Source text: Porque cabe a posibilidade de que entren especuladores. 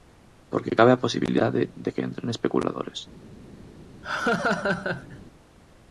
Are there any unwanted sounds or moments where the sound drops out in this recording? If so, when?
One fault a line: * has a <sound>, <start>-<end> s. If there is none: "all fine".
* has a laugh, 4.0-5.2 s